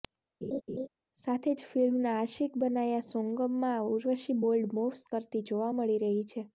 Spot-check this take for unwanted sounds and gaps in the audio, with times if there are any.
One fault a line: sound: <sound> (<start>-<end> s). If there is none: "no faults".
sound: laugh (0.4-0.9 s)